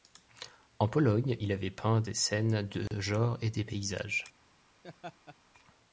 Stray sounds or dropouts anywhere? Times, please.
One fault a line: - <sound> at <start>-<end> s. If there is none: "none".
- dropout at 2.9-2.9 s
- laugh at 4.8-5.4 s